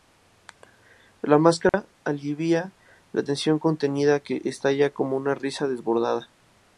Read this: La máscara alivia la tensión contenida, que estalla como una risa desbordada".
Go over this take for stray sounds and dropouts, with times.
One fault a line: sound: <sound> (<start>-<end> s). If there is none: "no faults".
sound: dropout (1.7-1.7 s)